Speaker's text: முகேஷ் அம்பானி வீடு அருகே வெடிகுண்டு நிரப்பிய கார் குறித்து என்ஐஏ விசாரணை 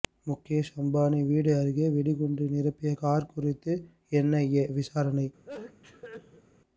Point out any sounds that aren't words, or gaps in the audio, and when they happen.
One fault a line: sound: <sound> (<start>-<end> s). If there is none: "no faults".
sound: sneeze (5.4-6.4 s)